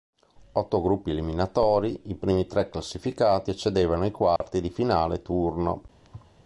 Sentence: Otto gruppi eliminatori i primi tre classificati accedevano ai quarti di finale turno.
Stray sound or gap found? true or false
true